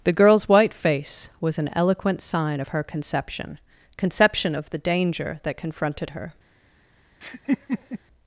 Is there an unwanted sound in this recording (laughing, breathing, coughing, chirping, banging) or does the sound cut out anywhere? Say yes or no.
yes